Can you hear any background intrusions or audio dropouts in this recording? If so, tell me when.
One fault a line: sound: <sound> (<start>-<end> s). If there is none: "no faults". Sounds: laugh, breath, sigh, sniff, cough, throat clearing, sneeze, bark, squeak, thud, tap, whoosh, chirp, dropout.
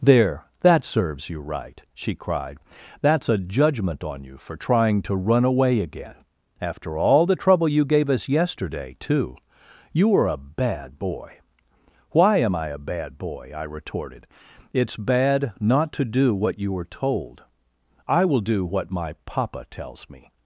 no faults